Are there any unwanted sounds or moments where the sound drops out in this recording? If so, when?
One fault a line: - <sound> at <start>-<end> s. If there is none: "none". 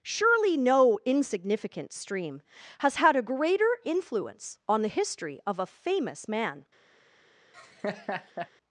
- laugh at 7.5-8.5 s